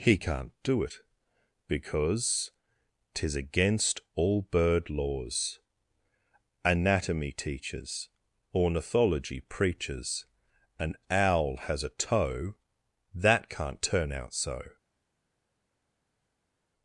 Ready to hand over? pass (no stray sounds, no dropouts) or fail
pass